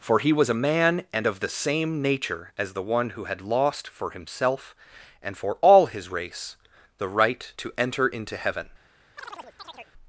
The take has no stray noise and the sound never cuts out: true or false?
false